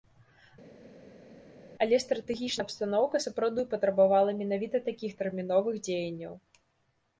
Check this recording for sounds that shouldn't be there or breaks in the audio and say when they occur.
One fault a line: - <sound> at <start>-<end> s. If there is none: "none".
none